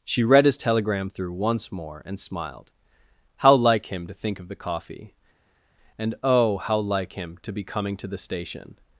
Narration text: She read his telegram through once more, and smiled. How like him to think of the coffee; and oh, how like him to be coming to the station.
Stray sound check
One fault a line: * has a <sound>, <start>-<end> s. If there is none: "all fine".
all fine